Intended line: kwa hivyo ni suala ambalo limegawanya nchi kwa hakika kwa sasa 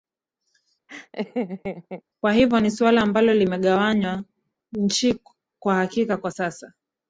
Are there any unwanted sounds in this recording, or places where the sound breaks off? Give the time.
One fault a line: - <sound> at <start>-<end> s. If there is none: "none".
- laugh at 0.9-2.0 s